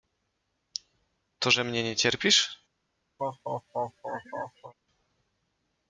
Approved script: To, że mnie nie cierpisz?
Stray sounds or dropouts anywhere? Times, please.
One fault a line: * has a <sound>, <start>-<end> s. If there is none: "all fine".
* has a laugh, 3.2-4.7 s